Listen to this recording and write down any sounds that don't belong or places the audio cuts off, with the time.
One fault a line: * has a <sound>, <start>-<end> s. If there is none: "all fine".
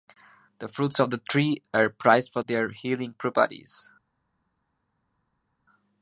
all fine